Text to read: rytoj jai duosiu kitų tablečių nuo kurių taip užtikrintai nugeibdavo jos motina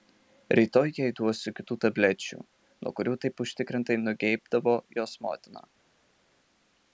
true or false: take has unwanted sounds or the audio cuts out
false